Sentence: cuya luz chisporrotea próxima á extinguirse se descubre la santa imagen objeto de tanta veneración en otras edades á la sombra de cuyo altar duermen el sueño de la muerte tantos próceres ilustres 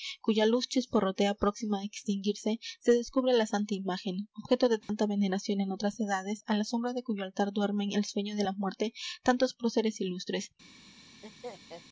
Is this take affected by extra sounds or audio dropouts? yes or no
yes